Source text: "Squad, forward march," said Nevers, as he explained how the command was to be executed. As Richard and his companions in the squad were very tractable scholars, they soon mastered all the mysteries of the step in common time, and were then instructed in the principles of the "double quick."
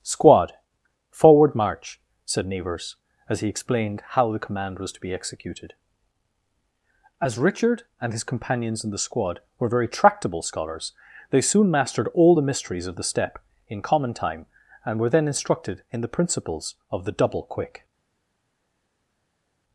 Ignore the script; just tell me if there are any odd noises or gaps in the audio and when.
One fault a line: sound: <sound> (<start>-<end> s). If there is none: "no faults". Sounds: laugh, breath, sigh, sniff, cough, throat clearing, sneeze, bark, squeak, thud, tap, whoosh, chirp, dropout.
no faults